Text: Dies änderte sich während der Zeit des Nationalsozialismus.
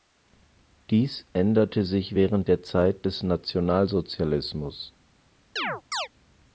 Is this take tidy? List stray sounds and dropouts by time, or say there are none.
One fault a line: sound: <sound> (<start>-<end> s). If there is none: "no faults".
sound: chirp (5.6-6.1 s)